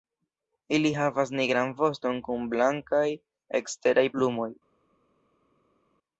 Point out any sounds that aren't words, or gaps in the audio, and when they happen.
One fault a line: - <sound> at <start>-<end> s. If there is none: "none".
none